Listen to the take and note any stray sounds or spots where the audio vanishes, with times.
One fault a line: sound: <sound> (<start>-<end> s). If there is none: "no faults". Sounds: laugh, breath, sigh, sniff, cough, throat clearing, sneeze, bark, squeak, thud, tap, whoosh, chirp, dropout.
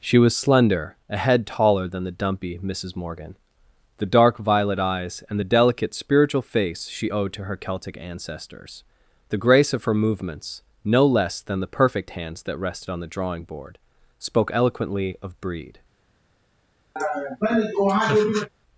sound: laugh (17.0-18.5 s)